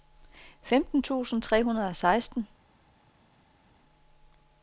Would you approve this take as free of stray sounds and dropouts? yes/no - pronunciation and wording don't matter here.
yes